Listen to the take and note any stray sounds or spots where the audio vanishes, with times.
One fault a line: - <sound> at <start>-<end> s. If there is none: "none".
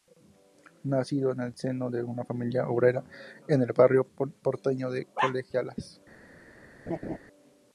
- laugh at 6.9-7.2 s